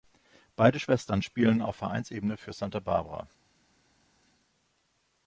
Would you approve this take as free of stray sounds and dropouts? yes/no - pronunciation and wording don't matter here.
yes